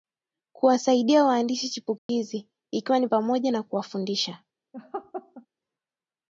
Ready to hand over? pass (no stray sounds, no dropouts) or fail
fail